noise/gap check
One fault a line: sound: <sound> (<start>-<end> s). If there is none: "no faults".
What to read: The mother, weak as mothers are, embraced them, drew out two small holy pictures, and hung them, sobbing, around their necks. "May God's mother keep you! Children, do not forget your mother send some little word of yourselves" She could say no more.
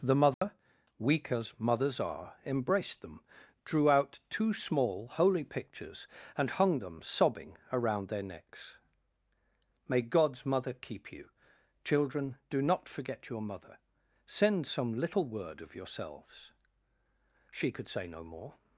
sound: dropout (0.3-0.4 s)